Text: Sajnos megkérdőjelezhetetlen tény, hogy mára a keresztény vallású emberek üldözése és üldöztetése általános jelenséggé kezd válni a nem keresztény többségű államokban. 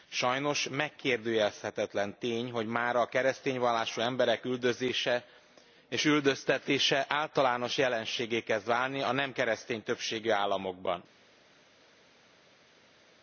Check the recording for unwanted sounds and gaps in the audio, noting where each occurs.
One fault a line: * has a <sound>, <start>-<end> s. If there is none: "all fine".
all fine